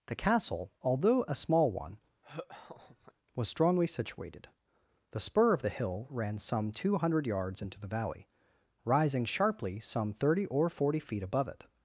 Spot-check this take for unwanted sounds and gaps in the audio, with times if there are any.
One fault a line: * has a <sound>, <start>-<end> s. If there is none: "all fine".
* has a laugh, 2.2-3.1 s